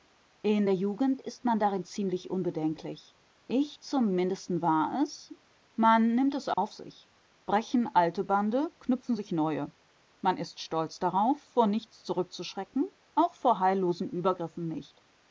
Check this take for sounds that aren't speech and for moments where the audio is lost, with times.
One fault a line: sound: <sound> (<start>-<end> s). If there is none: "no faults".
sound: dropout (6.5-6.6 s)